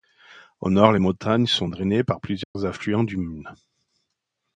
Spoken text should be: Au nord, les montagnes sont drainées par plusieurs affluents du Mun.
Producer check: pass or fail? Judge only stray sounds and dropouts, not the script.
fail